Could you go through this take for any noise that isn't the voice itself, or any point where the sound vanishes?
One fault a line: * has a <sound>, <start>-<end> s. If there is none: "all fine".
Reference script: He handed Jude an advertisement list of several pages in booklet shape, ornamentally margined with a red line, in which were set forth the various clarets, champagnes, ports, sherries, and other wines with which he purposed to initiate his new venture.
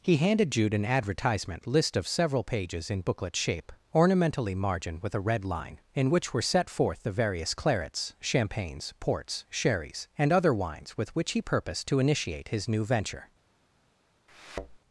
* has a thud, 14.3-14.8 s